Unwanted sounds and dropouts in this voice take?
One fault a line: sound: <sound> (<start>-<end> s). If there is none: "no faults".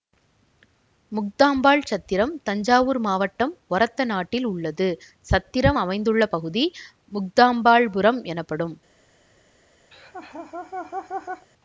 sound: laugh (9.9-11.5 s)